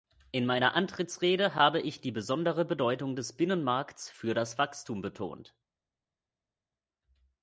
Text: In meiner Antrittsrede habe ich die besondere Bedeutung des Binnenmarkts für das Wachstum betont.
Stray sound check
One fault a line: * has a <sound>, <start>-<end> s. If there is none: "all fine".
all fine